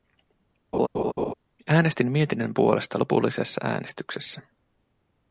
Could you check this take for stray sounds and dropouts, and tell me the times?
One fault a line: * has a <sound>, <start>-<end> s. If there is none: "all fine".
* has a laugh, 0.7-1.3 s